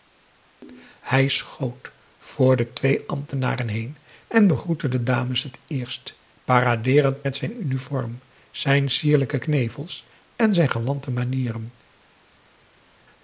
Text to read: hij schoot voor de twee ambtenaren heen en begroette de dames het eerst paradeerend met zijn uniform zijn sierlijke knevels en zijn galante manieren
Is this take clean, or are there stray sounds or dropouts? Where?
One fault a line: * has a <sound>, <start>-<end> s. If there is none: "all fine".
all fine